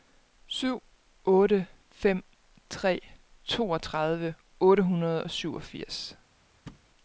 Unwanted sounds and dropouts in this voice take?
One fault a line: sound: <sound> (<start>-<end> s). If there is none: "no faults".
sound: thud (6.7-6.9 s)